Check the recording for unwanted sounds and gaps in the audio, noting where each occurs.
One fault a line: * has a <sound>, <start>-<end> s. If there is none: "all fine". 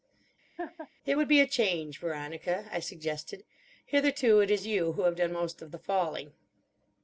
* has a laugh, 0.6-0.9 s